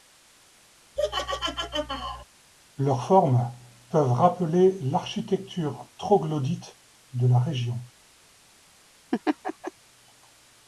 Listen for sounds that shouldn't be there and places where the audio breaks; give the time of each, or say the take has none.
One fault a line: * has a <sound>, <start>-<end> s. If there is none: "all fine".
* has a laugh, 1.0-2.2 s
* has a laugh, 9.1-9.7 s